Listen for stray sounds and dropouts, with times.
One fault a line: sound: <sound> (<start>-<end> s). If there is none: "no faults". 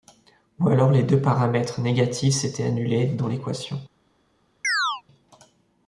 sound: chirp (4.6-5.0 s)